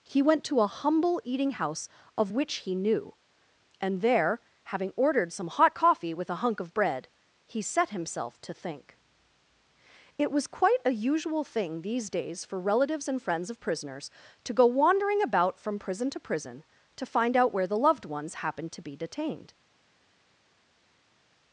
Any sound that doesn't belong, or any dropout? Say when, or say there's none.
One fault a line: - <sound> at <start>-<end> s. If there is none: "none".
none